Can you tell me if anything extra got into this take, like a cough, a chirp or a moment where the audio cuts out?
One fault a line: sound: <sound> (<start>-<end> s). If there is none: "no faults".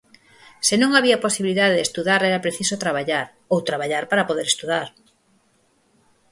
no faults